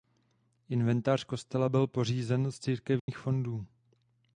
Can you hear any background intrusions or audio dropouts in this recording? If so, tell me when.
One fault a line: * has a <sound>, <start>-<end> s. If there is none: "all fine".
* has a dropout, 3.0-3.1 s